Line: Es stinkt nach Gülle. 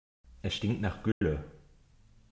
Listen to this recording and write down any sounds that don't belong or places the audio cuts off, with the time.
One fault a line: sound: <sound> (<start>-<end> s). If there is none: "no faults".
sound: dropout (1.1-1.2 s)